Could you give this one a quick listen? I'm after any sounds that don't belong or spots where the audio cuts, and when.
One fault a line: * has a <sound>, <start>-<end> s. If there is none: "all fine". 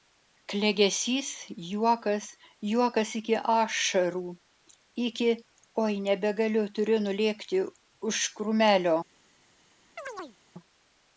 * has a chirp, 10.0-10.4 s